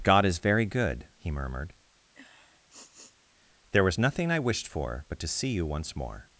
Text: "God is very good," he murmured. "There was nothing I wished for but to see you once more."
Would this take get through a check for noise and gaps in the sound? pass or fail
fail